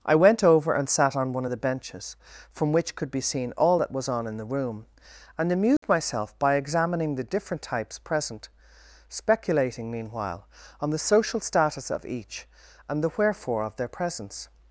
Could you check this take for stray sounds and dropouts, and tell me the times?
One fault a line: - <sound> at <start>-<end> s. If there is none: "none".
- dropout at 5.8-5.8 s